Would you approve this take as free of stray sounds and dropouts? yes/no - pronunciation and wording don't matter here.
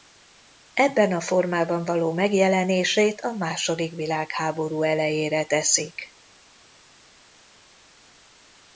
yes